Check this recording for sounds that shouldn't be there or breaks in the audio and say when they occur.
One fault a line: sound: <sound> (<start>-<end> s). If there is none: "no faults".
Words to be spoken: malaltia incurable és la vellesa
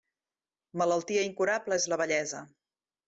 no faults